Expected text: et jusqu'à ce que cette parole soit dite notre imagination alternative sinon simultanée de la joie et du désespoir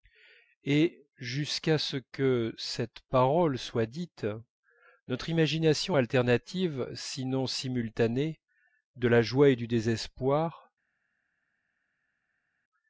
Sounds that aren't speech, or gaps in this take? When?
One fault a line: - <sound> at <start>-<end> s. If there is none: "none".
none